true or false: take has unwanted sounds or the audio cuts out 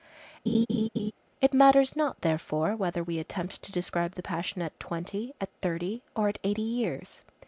true